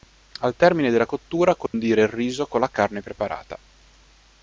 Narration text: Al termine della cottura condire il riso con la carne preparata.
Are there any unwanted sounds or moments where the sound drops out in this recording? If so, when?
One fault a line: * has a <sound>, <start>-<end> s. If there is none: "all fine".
* has a dropout, 1.7-1.7 s